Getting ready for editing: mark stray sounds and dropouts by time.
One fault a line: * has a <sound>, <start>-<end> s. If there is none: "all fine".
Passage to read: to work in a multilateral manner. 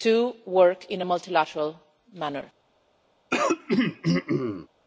* has a throat clearing, 3.3-4.7 s